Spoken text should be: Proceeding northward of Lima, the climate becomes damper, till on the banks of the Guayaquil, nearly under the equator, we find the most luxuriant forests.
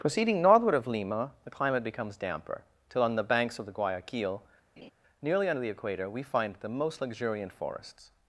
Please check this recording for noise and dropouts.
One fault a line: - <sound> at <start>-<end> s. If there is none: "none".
- laugh at 4.8-4.9 s